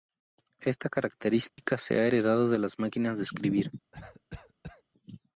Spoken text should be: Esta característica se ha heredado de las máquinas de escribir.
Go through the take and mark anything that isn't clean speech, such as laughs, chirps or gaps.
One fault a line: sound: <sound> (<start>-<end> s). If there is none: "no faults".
sound: dropout (1.5-1.6 s)
sound: cough (3.9-4.8 s)